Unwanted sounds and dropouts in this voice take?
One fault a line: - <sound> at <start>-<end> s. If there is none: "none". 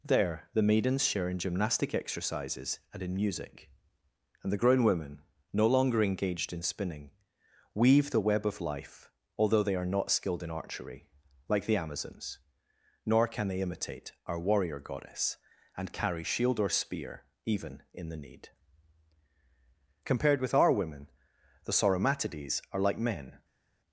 none